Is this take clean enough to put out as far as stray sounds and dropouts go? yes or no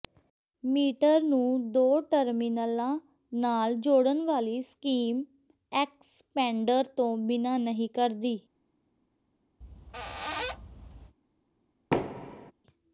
no